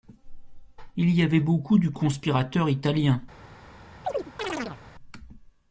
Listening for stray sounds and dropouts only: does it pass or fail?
fail